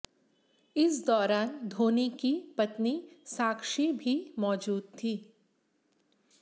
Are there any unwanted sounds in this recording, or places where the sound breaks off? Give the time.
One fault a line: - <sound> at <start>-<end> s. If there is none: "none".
none